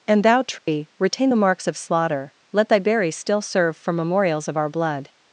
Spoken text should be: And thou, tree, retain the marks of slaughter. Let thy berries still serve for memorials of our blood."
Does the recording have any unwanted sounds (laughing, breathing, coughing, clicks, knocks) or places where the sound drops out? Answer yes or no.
yes